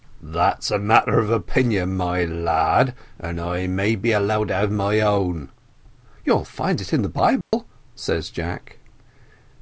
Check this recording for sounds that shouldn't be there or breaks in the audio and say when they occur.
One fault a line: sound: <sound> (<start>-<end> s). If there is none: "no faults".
sound: dropout (7.4-7.5 s)